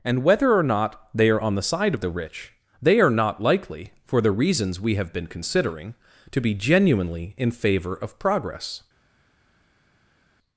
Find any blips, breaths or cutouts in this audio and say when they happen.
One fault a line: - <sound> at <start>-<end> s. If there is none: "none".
none